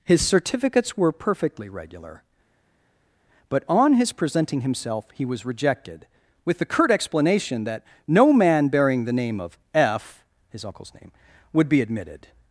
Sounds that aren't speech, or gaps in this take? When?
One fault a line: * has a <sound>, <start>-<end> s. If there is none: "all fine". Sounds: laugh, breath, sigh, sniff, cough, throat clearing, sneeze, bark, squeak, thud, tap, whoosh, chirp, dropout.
all fine